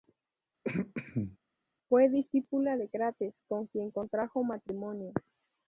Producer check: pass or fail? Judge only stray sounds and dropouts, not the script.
fail